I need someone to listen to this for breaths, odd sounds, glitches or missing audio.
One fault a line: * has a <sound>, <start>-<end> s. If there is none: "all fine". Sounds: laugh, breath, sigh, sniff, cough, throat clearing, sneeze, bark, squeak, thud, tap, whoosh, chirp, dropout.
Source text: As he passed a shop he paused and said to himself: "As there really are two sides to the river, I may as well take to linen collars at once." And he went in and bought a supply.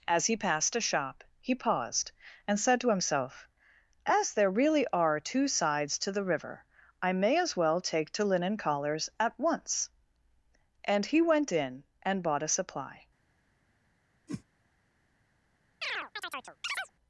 * has a whoosh, 14.3-14.4 s
* has a chirp, 15.8-16.9 s